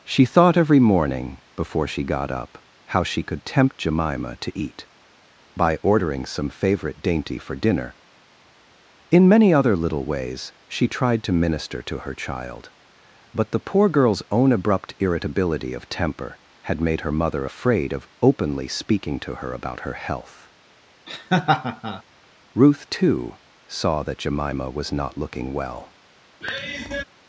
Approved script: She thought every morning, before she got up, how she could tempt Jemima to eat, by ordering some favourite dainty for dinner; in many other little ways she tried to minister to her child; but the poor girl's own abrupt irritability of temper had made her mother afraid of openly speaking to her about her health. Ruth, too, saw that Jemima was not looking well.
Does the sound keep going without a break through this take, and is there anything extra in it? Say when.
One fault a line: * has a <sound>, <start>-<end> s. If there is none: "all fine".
* has a laugh, 21.1-22.0 s
* has a sigh, 26.4-27.0 s